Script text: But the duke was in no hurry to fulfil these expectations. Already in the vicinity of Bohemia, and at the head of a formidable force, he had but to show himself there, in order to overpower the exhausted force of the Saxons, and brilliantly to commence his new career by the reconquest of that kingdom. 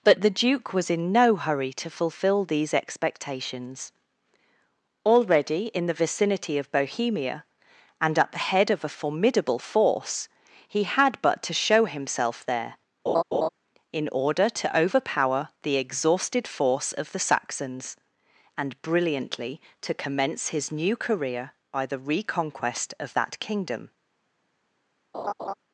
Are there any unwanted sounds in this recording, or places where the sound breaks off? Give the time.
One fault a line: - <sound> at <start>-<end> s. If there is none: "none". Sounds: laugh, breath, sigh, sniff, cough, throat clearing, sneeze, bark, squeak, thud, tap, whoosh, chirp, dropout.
- laugh at 13.1-13.5 s
- laugh at 25.1-25.6 s